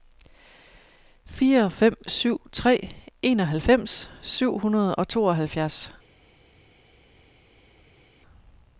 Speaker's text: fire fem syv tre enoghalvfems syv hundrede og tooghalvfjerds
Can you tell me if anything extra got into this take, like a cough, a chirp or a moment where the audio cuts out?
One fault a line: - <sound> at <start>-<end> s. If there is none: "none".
none